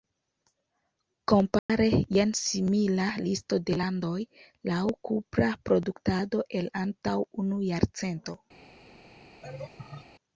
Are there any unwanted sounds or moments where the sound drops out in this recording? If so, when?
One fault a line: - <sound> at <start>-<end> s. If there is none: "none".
- dropout at 1.6-1.7 s
- laugh at 9.4-10.1 s